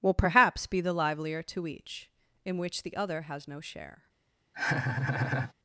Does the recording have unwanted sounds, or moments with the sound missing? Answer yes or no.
yes